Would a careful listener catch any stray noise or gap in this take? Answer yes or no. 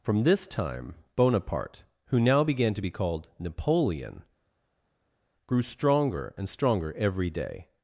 no